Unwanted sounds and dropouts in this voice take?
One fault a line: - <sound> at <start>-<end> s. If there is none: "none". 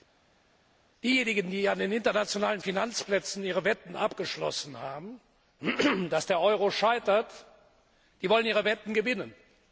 none